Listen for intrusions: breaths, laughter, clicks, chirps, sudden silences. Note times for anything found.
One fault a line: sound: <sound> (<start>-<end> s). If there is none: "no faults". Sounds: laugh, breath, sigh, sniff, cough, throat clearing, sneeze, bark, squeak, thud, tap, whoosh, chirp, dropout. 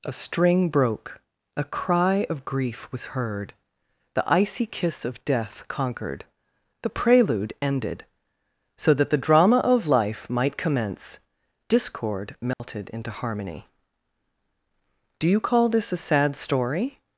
sound: dropout (12.5-12.6 s)